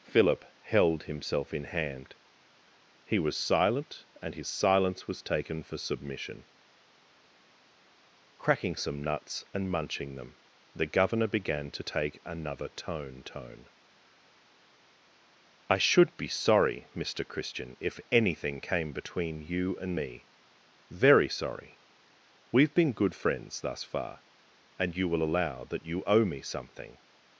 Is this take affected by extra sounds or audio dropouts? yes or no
no